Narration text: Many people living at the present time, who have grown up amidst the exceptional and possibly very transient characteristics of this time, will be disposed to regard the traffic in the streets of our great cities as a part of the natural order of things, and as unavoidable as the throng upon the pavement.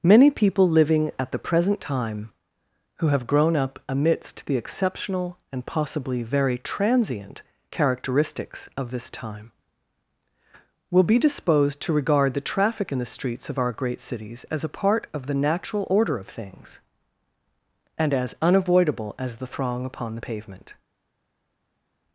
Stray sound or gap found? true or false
false